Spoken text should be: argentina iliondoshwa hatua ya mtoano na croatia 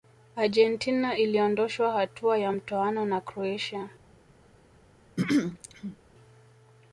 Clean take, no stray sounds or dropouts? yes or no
no